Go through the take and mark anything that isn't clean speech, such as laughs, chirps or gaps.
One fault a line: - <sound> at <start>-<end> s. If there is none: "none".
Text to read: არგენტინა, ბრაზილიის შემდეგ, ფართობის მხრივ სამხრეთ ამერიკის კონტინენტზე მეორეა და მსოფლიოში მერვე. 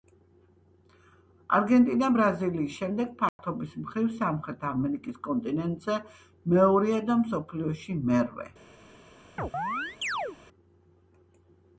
- dropout at 3.3-3.4 s
- chirp at 9.4-10.4 s